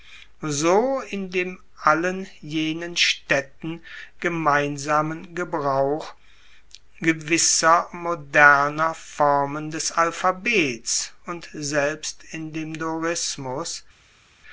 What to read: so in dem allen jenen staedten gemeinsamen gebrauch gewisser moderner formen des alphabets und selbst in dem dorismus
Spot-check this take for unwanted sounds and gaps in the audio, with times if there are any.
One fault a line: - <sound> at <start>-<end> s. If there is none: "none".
none